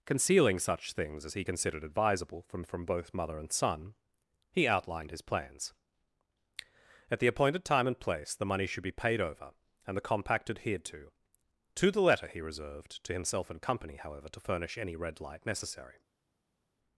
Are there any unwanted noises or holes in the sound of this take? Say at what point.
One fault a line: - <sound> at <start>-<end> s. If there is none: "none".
none